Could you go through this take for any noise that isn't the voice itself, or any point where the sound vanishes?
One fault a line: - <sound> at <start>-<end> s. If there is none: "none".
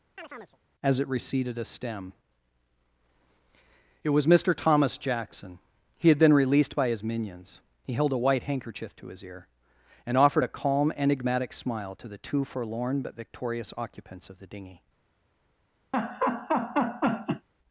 - chirp at 0.2-0.6 s
- laugh at 15.9-17.5 s